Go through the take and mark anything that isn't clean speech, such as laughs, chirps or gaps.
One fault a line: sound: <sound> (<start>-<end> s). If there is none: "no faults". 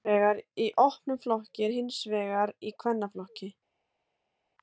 no faults